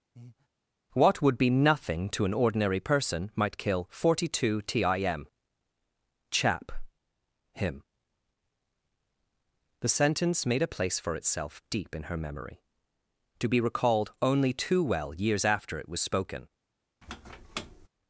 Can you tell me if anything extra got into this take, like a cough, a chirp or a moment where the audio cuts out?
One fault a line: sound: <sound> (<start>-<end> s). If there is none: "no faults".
sound: breath (0.2-0.5 s)
sound: squeak (17.0-17.9 s)